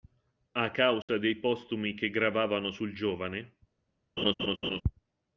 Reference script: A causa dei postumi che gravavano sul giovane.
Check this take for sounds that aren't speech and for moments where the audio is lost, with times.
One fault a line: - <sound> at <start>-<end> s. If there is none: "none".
- dropout at 1.0-1.1 s
- laugh at 4.2-4.8 s